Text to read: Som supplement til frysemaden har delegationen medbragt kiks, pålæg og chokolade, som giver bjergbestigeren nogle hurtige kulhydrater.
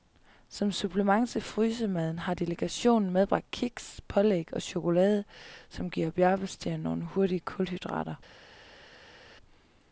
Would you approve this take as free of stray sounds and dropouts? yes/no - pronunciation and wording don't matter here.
yes